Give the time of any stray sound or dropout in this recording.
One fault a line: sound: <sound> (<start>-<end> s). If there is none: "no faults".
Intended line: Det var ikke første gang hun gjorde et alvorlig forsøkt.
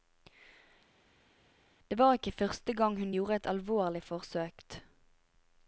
no faults